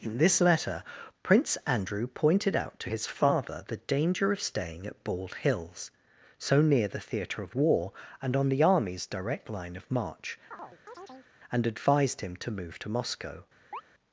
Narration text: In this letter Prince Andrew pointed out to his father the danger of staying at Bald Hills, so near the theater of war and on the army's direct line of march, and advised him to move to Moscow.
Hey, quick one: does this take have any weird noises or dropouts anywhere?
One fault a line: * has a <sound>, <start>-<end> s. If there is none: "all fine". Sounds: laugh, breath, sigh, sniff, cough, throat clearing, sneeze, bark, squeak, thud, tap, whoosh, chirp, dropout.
* has a chirp, 10.5-11.3 s
* has a chirp, 13.7-13.8 s